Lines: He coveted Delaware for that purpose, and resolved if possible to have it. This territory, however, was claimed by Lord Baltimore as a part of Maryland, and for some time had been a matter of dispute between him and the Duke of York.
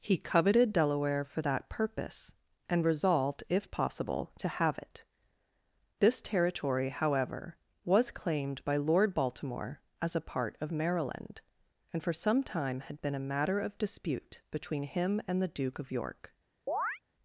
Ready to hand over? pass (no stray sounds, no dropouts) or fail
fail